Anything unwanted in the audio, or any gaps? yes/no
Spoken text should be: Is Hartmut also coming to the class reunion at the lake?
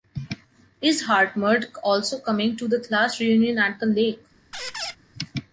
yes